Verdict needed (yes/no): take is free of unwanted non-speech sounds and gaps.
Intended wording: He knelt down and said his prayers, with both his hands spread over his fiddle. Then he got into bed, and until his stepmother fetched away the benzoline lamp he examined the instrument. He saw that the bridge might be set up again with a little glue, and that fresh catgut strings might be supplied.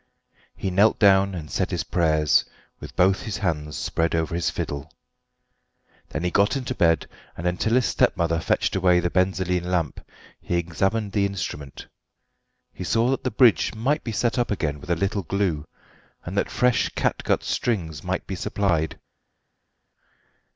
yes